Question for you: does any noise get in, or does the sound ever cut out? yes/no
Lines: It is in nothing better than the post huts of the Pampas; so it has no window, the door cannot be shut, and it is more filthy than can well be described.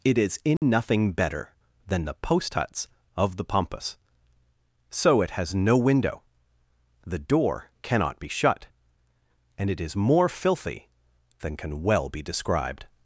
yes